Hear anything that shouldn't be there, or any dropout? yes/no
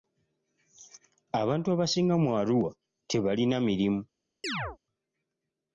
yes